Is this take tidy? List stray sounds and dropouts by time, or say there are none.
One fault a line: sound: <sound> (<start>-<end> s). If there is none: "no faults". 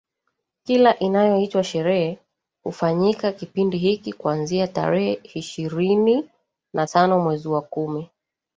no faults